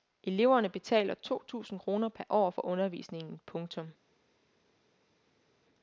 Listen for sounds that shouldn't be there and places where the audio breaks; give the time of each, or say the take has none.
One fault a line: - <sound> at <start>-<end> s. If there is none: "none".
none